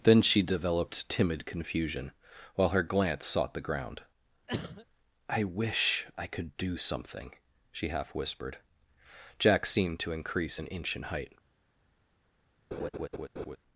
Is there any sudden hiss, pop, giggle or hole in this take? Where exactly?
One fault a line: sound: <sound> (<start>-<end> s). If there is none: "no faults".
sound: cough (4.5-4.9 s)
sound: laugh (12.7-13.6 s)